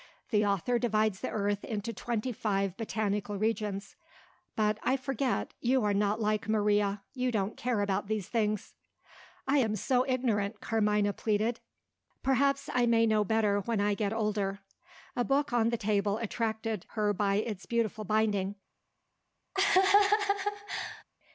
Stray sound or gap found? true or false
true